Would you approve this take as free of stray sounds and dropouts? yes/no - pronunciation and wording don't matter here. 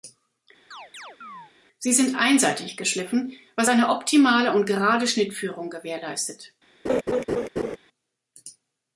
no